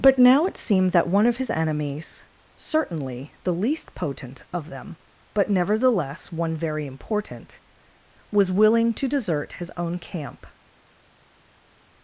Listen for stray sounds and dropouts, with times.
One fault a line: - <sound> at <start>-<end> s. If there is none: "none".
none